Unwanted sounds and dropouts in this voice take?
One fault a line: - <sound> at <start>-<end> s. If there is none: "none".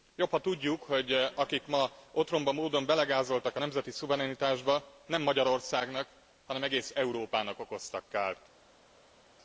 none